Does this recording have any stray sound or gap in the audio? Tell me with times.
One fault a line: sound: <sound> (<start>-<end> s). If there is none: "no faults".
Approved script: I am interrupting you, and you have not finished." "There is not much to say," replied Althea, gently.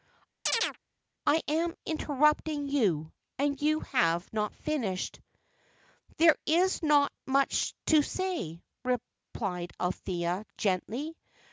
sound: chirp (0.5-0.8 s)